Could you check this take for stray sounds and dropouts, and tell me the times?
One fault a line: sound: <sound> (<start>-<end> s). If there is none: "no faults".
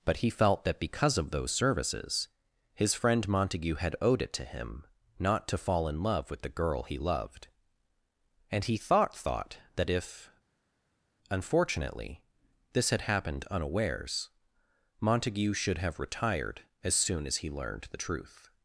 no faults